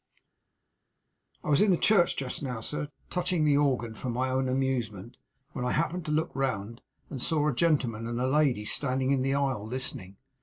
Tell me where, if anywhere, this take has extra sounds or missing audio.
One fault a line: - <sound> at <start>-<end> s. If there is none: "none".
none